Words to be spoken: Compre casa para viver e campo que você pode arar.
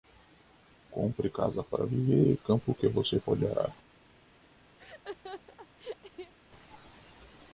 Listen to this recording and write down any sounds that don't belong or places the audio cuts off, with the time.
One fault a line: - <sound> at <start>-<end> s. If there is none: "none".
- laugh at 4.8-6.3 s